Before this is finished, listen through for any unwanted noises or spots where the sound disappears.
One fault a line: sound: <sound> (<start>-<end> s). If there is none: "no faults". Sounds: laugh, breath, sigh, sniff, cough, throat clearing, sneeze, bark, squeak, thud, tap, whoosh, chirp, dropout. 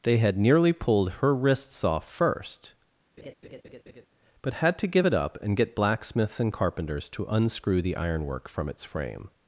sound: laugh (3.2-4.1 s)